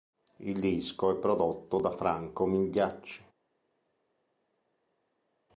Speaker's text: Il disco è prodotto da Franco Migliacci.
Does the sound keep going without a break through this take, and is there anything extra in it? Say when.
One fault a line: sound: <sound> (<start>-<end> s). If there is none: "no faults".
no faults